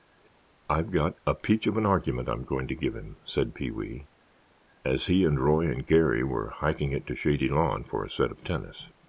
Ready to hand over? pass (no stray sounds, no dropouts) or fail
pass